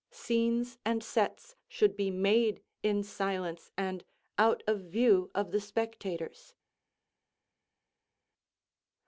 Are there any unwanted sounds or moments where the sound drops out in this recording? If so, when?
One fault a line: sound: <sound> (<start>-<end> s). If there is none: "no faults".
no faults